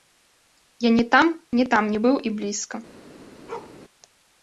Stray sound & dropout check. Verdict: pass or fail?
fail